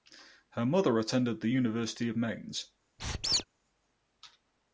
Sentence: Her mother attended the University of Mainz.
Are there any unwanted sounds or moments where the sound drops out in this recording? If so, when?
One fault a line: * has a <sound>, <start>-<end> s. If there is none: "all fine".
* has a squeak, 3.0-3.4 s